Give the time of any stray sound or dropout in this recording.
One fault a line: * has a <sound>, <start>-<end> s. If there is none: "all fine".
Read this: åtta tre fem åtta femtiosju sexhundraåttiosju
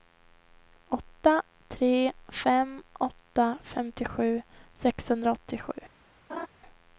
* has a laugh, 6.3-6.5 s